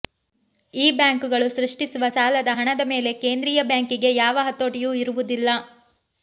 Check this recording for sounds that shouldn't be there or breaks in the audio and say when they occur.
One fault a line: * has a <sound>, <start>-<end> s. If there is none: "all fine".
all fine